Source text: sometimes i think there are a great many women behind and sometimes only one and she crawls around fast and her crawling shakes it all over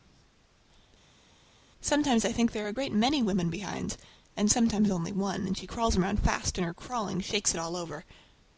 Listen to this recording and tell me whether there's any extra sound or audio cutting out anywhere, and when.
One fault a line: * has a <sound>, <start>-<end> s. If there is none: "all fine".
all fine